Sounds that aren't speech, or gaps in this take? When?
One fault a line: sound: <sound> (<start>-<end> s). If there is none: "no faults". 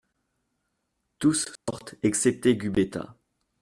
sound: dropout (1.6-1.7 s)